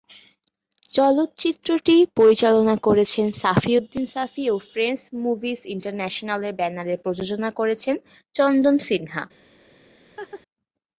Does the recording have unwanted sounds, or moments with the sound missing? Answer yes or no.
yes